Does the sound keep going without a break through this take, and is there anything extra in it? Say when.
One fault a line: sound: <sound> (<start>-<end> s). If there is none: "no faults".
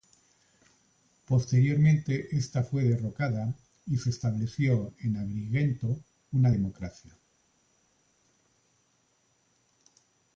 no faults